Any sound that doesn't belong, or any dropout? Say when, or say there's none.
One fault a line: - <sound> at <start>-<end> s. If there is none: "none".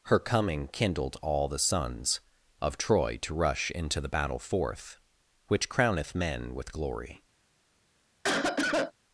- cough at 8.2-8.9 s